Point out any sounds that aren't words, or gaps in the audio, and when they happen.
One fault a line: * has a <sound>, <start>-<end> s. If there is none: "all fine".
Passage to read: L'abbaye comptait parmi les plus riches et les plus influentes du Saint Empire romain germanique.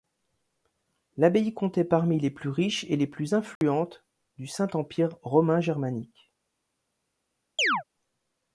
* has a dropout, 3.6-3.6 s
* has a chirp, 7.6-7.8 s